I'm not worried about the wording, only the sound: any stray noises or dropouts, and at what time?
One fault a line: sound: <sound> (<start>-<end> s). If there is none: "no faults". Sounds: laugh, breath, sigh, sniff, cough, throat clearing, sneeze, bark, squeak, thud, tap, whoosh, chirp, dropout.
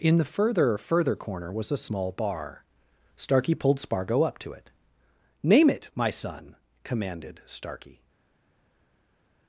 no faults